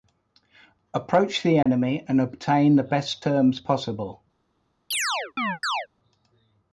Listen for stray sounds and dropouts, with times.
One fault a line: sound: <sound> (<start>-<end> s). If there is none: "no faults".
sound: dropout (1.6-1.7 s)
sound: chirp (4.9-5.9 s)